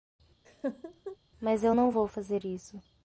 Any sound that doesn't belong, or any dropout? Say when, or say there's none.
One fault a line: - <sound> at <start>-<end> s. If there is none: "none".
- laugh at 0.4-1.2 s